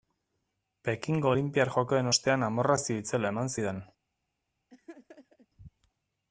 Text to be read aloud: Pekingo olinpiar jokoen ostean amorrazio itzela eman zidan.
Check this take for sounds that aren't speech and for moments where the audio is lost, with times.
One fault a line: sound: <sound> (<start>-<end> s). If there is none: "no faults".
sound: laugh (4.7-5.5 s)